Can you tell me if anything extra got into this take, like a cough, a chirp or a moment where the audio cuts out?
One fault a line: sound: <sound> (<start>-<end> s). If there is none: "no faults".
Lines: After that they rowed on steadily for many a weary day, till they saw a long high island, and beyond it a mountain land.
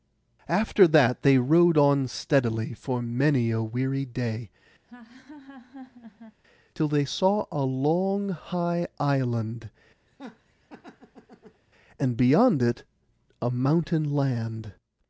sound: laugh (4.8-6.4 s)
sound: laugh (10.1-11.6 s)